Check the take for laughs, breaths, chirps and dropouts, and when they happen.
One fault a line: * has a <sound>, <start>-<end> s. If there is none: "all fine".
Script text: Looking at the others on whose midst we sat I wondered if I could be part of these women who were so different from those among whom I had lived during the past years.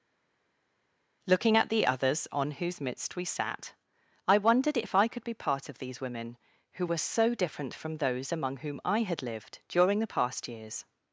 all fine